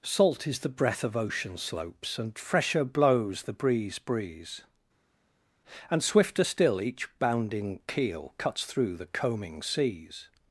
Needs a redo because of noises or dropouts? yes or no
no